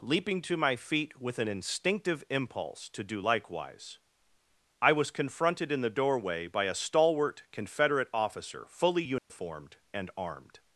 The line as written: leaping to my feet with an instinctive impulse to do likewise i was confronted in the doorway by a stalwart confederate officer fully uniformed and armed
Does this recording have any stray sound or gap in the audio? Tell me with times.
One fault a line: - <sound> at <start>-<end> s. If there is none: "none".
- dropout at 9.2-9.3 s